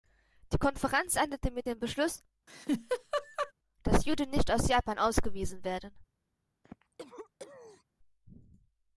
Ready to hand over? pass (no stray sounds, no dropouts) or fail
fail